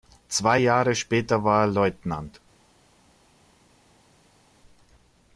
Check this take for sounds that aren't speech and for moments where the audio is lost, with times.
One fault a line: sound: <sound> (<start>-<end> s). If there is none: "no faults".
no faults